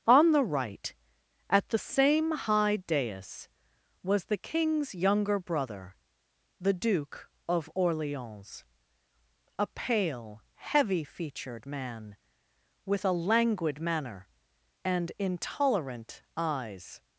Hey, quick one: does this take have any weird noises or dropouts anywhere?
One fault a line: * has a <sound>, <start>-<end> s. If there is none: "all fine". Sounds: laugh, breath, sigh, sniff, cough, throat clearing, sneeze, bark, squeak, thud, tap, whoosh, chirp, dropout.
all fine